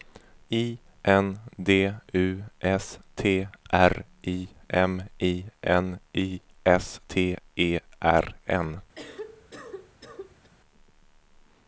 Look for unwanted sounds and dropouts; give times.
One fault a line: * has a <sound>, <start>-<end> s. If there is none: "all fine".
* has a cough, 9.0-10.5 s